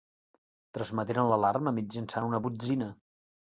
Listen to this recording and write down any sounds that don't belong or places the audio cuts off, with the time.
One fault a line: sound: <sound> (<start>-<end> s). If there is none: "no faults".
no faults